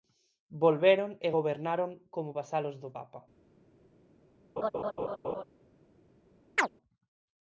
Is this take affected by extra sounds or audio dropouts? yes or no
yes